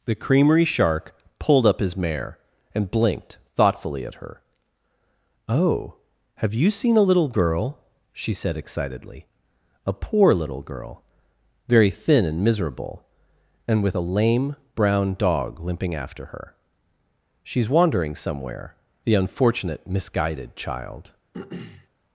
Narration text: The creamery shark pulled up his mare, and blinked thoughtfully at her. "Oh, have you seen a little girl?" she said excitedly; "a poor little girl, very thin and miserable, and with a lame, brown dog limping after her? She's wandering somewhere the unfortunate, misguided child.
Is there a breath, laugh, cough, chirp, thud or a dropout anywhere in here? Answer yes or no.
yes